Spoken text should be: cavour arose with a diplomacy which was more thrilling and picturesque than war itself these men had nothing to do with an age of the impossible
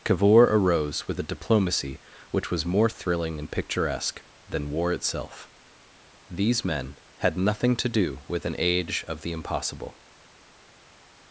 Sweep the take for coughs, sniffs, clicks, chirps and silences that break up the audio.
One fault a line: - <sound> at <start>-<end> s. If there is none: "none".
none